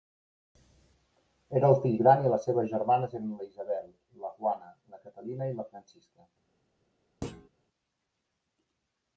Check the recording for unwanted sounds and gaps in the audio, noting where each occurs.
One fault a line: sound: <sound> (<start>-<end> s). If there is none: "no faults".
sound: thud (7.2-7.5 s)